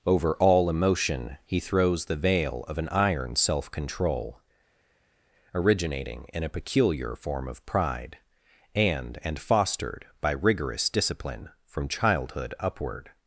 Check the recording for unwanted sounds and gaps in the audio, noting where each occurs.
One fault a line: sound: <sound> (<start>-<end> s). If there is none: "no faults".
no faults